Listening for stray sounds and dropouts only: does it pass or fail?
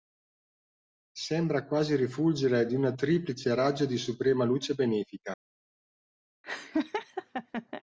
fail